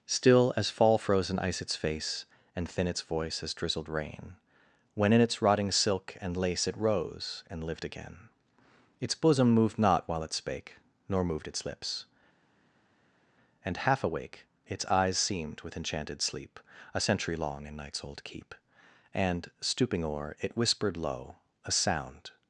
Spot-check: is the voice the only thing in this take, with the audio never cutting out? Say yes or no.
yes